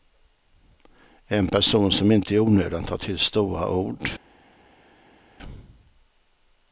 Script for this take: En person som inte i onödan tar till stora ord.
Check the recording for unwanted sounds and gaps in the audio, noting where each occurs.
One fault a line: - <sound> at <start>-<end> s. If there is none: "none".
none